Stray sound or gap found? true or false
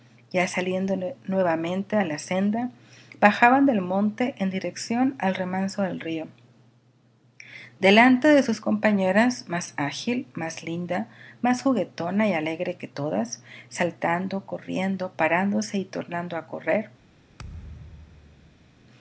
true